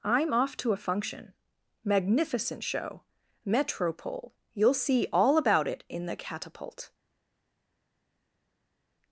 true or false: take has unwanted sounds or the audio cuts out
false